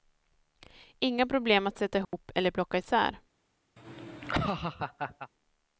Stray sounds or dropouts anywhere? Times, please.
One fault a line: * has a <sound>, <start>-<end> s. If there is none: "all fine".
* has a dropout, 2.0-2.1 s
* has a laugh, 3.8-5.3 s